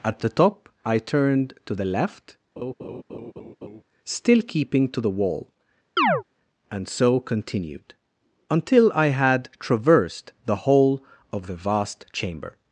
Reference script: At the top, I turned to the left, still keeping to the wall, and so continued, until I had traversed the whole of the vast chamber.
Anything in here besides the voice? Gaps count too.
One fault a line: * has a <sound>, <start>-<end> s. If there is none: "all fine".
* has a laugh, 2.6-3.8 s
* has a chirp, 6.0-6.2 s